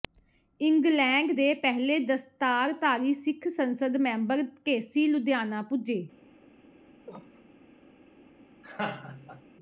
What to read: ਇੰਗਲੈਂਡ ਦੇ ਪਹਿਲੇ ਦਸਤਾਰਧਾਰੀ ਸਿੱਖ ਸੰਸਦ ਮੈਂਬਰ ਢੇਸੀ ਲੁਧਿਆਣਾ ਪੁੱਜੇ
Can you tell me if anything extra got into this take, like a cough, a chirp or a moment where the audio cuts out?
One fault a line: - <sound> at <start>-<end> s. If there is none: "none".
- cough at 7.1-7.4 s
- laugh at 8.6-9.4 s